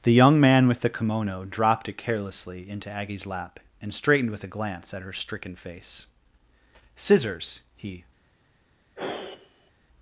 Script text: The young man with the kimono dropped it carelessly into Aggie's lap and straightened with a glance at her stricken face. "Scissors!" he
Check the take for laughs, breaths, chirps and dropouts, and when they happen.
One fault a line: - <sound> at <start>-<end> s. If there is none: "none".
- sigh at 9.0-9.7 s